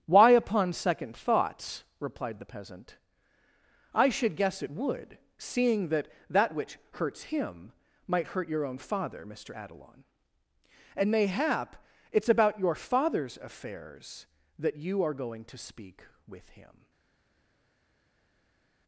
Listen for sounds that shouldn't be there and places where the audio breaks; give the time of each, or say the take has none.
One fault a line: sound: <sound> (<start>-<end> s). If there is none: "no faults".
no faults